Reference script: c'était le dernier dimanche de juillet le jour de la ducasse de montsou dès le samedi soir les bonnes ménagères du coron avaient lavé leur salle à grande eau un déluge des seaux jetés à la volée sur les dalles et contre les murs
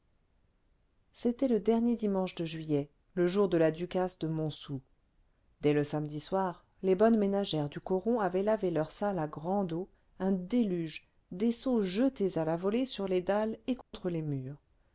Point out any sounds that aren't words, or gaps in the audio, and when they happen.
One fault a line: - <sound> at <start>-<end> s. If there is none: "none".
- dropout at 13.8-13.9 s